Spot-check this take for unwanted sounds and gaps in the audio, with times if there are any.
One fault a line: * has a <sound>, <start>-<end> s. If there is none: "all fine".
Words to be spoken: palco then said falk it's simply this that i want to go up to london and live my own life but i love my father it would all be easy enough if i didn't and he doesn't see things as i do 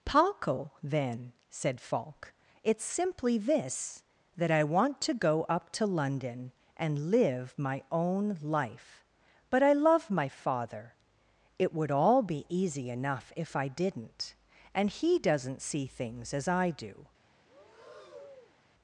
* has a breath, 17.4-18.6 s